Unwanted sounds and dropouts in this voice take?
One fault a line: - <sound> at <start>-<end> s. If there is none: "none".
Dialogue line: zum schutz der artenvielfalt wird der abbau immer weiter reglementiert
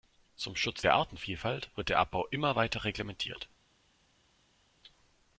none